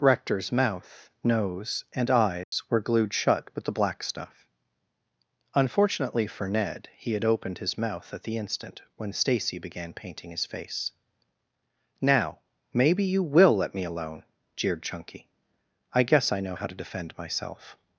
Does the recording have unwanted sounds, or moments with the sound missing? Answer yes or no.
yes